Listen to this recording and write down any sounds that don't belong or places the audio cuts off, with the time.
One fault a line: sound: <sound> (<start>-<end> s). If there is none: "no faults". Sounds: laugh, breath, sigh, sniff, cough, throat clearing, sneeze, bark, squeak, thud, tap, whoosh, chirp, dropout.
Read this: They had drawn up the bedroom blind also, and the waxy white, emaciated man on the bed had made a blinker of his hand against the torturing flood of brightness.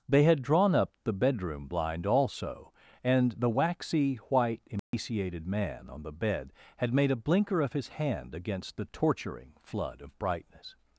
sound: dropout (4.8-4.9 s)